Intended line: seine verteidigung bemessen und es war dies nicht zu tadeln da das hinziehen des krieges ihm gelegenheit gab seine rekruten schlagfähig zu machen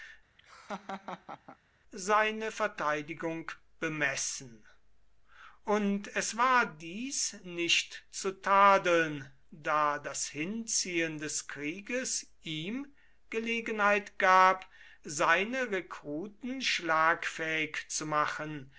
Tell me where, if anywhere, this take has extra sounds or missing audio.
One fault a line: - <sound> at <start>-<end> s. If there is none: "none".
- laugh at 0.4-1.6 s